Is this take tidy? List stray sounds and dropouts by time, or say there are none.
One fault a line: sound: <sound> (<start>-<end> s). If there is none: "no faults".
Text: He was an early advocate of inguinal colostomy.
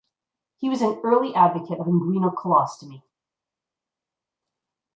no faults